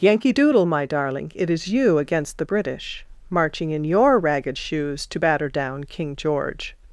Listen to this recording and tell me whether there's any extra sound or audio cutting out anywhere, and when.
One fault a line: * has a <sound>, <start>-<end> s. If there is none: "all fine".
all fine